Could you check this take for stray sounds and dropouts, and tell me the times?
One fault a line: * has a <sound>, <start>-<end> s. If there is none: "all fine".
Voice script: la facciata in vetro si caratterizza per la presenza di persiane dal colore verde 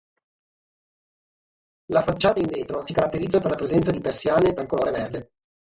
all fine